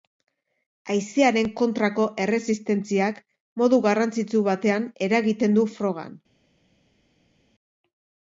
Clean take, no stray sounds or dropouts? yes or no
yes